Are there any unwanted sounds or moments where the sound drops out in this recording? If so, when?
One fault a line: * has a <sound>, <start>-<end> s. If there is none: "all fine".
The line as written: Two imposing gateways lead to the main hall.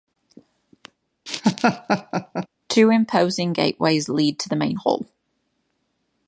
* has a laugh, 1.3-2.5 s